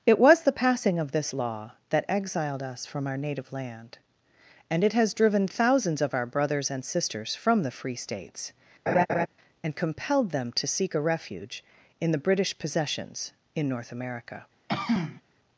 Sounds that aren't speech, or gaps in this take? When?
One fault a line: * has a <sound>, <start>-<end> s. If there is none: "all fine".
* has a laugh, 8.9-9.3 s
* has a throat clearing, 14.7-15.2 s